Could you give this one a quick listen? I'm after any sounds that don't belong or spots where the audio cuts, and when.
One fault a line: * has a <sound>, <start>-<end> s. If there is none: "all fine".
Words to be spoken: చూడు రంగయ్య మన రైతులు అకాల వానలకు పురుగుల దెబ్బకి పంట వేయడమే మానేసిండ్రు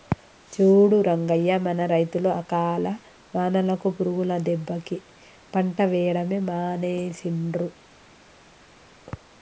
all fine